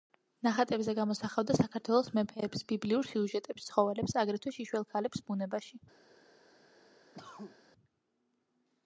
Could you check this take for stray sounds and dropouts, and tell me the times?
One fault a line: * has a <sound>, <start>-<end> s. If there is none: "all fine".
* has a cough, 7.1-7.6 s